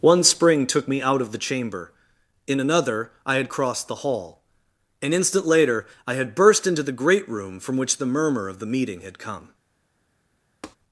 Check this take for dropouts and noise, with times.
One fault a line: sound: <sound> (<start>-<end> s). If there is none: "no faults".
sound: tap (10.6-10.8 s)